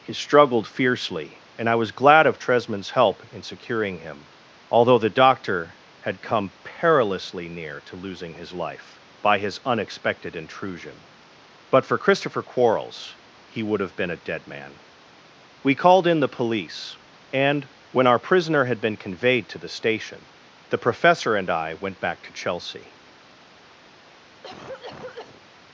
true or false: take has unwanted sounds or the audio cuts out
true